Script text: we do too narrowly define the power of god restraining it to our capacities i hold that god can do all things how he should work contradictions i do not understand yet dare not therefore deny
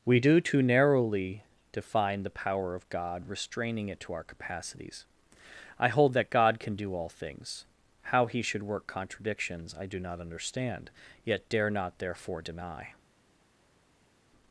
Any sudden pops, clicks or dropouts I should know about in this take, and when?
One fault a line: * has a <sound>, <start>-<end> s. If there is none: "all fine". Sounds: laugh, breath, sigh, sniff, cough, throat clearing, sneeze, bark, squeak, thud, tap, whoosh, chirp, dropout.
all fine